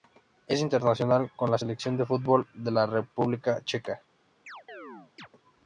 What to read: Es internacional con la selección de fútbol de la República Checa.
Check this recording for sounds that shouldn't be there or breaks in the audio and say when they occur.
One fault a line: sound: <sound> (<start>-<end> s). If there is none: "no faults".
sound: chirp (4.5-5.3 s)